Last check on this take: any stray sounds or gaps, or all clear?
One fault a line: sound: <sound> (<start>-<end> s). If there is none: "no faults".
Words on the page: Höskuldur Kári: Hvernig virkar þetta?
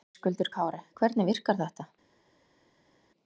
no faults